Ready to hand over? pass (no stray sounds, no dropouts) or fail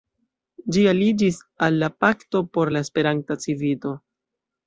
pass